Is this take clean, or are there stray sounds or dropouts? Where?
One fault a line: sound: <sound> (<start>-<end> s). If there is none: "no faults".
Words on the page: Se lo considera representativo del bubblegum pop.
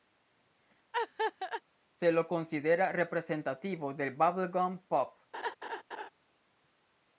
sound: laugh (0.9-1.6 s)
sound: laugh (5.3-6.1 s)